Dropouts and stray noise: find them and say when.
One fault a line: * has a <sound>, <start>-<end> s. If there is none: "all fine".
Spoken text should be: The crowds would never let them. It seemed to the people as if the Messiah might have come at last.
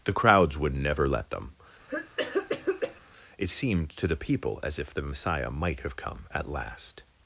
* has a cough, 1.9-3.0 s